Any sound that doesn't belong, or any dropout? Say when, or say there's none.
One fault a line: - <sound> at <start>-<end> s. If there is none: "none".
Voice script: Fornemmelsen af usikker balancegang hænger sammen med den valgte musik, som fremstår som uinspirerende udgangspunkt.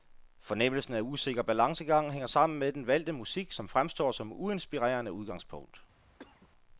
- cough at 6.2-6.5 s